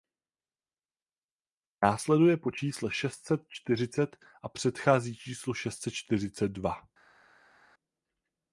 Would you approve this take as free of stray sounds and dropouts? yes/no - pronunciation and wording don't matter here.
yes